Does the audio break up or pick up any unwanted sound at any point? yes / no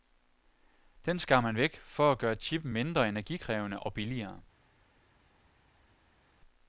no